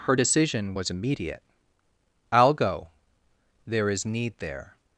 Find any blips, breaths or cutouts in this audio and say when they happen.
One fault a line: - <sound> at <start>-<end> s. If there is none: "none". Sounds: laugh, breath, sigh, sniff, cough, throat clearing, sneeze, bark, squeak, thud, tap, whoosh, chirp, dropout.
none